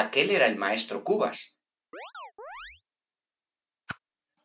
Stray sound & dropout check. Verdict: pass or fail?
fail